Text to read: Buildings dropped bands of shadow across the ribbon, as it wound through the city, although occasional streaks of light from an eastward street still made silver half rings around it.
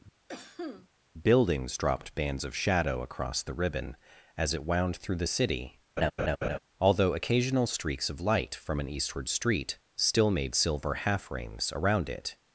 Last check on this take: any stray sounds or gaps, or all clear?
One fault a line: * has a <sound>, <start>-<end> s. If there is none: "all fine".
* has a cough, 0.3-0.9 s
* has a laugh, 6.0-6.6 s